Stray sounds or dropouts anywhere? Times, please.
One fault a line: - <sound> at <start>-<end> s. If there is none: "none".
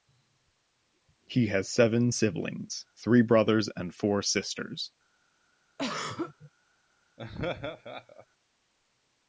- throat clearing at 5.8-6.5 s
- laugh at 7.2-8.3 s